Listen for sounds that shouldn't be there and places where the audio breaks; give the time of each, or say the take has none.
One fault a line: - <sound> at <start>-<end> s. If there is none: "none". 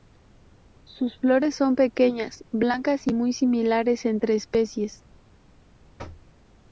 - thud at 6.0-6.3 s